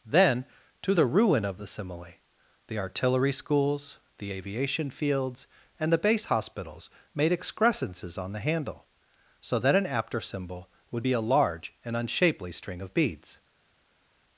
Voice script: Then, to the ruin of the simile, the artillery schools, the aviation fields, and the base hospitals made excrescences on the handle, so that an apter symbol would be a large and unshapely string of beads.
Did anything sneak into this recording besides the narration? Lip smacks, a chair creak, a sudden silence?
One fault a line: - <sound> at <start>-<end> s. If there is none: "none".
none